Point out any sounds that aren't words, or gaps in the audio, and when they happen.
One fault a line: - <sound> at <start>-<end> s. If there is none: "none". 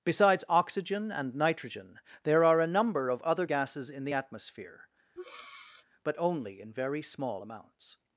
- breath at 5.2-5.8 s